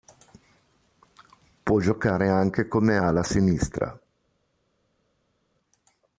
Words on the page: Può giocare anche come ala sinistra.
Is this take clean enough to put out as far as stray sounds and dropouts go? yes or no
yes